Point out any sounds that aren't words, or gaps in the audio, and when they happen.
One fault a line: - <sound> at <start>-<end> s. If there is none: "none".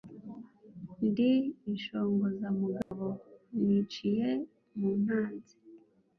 - dropout at 2.8-2.9 s